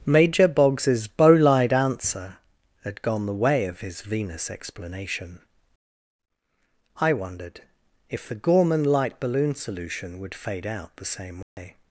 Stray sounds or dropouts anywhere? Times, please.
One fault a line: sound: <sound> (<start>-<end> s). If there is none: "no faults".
sound: dropout (11.4-11.6 s)